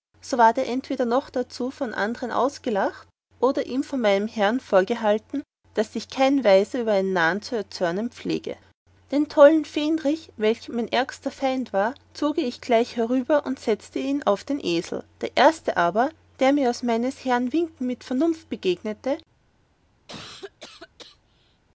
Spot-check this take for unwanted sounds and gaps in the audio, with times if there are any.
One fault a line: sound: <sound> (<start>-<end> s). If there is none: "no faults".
sound: cough (20.1-21.6 s)